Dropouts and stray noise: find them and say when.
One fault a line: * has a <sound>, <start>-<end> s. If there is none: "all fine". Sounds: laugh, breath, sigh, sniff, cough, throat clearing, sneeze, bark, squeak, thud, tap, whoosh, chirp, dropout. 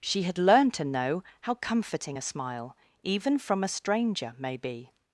all fine